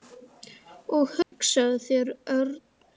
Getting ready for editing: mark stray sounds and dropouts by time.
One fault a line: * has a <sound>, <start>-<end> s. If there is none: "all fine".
* has a dropout, 1.2-1.3 s